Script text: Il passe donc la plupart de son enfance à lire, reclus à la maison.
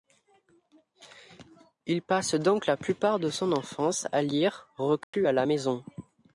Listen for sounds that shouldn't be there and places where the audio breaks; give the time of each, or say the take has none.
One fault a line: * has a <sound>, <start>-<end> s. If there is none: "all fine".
* has a dropout, 5.0-5.1 s